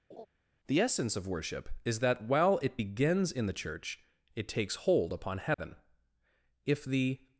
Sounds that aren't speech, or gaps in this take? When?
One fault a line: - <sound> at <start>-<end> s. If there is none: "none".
- laugh at 0.1-0.3 s
- dropout at 5.5-5.6 s